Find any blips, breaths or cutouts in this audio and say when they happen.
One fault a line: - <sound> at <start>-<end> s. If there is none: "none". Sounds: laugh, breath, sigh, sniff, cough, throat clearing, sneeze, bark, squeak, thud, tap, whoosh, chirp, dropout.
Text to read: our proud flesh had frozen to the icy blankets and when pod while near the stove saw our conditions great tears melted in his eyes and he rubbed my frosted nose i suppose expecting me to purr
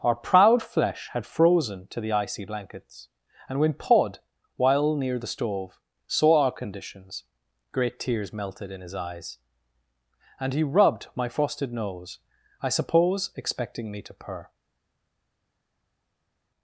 none